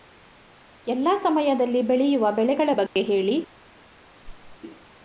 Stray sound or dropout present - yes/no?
yes